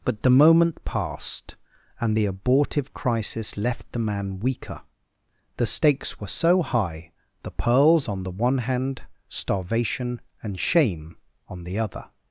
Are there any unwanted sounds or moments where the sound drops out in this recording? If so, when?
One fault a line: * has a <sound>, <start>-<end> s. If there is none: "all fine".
all fine